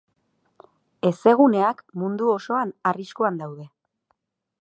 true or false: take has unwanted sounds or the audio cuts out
false